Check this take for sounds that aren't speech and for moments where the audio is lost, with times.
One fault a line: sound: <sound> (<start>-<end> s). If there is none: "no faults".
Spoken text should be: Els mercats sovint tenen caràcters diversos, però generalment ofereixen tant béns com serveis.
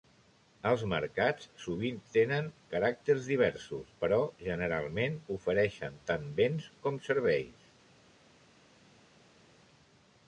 no faults